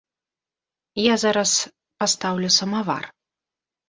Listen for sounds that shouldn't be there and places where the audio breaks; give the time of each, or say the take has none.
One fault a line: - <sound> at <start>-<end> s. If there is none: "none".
none